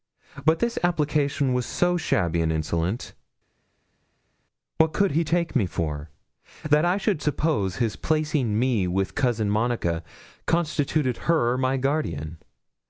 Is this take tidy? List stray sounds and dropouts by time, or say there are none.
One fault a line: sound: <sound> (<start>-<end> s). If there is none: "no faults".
no faults